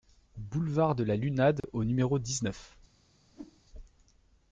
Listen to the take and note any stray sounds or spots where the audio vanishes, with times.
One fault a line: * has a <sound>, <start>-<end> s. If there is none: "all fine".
* has a dropout, 1.6-1.6 s
* has a whoosh, 3.3-3.6 s